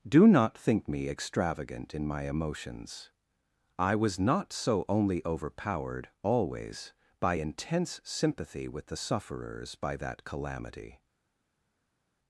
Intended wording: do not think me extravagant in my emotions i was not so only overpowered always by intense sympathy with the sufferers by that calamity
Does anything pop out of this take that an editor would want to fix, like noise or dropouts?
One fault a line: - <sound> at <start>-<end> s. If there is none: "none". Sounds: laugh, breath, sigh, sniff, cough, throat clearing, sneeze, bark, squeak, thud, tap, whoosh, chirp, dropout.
none